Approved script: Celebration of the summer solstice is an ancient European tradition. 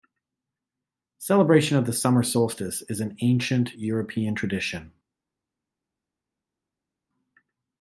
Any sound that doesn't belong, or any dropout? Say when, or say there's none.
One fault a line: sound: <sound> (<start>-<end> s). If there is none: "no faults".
no faults